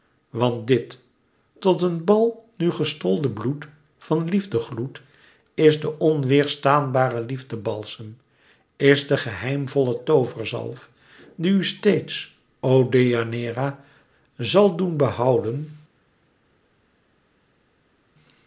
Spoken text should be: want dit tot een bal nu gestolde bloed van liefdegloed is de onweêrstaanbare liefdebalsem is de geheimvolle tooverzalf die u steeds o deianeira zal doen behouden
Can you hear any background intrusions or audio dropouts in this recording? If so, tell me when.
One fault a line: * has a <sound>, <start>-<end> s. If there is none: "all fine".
all fine